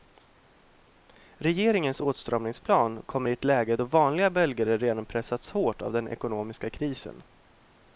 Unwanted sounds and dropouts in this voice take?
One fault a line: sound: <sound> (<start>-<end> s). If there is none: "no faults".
no faults